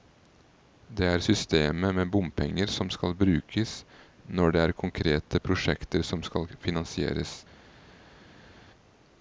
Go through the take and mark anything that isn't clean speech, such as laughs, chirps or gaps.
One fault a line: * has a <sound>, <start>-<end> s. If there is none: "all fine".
all fine